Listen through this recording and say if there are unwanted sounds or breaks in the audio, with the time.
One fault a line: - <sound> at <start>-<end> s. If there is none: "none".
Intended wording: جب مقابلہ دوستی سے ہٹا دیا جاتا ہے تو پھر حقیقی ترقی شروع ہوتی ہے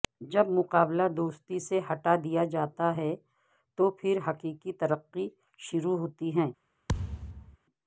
- thud at 6.9-7.6 s